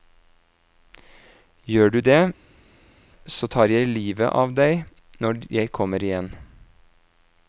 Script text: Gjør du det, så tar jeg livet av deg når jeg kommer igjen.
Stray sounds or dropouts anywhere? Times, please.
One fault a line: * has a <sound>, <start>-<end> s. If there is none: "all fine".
all fine